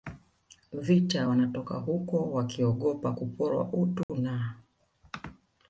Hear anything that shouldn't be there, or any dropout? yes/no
yes